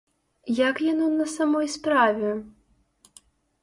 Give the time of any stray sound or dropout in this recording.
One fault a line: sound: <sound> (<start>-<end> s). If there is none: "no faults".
no faults